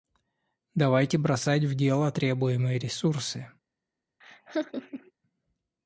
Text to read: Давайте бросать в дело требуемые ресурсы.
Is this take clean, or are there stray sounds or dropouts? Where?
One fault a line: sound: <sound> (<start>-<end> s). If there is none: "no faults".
sound: laugh (4.2-5.1 s)